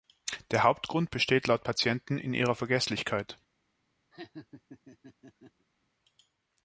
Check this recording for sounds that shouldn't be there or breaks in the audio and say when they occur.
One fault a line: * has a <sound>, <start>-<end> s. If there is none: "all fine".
* has a laugh, 4.1-5.7 s